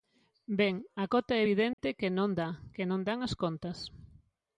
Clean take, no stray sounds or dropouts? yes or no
no